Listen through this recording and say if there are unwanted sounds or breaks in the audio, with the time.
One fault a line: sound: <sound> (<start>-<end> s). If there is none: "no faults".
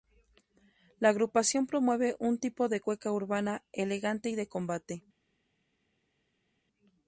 no faults